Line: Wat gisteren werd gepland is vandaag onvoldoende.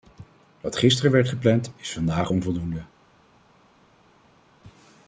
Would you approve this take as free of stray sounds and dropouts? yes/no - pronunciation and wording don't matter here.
yes